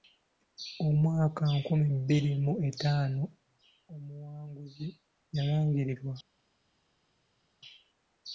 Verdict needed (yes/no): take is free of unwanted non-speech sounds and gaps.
yes